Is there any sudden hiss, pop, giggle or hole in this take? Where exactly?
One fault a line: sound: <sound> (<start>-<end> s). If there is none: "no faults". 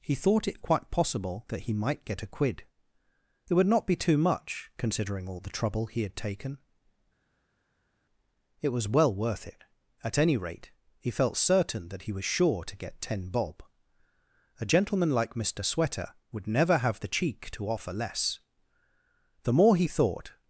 no faults